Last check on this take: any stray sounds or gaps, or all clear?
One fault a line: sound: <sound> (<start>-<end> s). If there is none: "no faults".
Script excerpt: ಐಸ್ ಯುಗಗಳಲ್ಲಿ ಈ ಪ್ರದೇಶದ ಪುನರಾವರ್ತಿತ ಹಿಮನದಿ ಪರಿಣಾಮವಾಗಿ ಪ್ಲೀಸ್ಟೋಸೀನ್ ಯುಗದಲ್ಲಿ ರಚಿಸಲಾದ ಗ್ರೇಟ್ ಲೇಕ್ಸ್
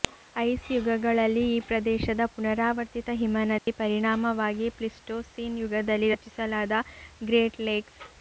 sound: dropout (3.6-3.7 s)